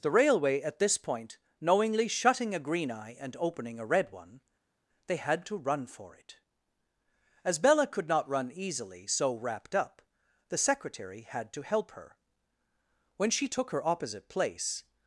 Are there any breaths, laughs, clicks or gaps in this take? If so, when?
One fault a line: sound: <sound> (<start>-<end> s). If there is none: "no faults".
no faults